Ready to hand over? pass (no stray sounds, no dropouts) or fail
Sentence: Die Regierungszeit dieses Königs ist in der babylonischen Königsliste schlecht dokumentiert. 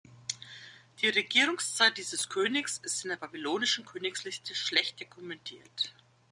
pass